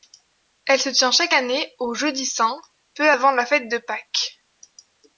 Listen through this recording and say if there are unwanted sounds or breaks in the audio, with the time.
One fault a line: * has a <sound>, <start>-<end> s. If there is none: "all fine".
all fine